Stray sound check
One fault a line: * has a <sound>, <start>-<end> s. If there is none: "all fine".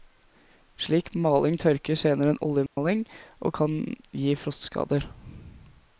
* has a dropout, 2.7-2.8 s